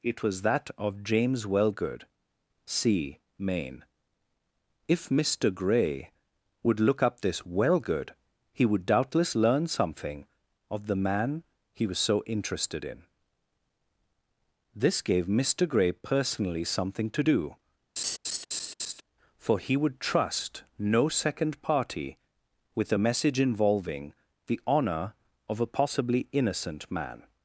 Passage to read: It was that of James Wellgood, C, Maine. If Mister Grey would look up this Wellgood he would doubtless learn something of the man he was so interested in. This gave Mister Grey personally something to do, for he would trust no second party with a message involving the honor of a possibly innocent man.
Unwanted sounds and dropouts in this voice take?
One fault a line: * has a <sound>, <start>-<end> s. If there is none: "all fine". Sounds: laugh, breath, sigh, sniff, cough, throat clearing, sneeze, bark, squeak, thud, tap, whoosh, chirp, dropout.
* has a laugh, 18.0-19.0 s